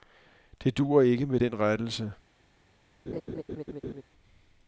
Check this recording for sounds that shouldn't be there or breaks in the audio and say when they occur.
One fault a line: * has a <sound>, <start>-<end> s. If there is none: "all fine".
* has a laugh, 3.1-4.0 s